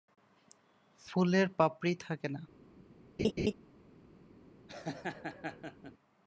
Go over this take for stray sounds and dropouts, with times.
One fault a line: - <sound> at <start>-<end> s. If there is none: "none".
- laugh at 3.2-3.5 s
- laugh at 4.7-5.9 s